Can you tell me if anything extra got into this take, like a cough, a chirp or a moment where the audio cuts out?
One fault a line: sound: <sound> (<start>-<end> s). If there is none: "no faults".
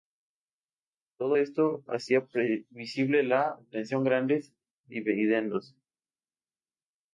no faults